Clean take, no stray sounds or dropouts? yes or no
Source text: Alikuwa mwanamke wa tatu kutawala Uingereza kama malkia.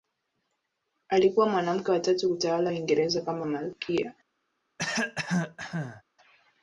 no